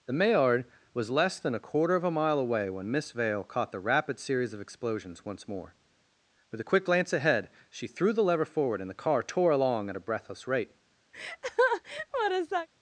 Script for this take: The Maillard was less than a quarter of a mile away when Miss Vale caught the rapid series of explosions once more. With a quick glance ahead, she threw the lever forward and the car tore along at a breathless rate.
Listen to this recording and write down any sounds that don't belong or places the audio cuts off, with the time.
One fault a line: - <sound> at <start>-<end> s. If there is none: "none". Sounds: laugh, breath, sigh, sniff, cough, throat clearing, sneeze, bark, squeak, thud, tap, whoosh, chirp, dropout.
- laugh at 11.1-12.7 s